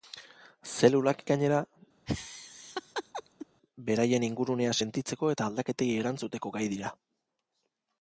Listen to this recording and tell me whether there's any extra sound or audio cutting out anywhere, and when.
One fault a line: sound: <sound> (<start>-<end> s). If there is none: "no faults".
sound: laugh (2.1-3.5 s)